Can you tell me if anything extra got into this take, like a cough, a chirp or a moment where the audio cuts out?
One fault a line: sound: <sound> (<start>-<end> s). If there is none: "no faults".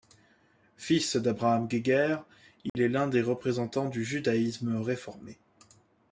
sound: dropout (2.7-2.8 s)